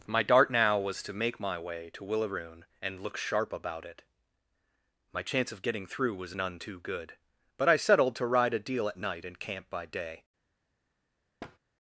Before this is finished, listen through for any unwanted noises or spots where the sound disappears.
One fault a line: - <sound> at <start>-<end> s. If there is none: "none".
- thud at 11.4-11.6 s